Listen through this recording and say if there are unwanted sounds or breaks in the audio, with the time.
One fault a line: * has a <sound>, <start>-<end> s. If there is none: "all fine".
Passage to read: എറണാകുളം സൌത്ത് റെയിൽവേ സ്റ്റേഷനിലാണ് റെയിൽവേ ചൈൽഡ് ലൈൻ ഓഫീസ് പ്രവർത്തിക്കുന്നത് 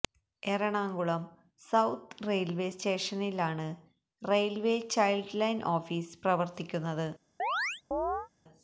* has a chirp, 7.4-8.3 s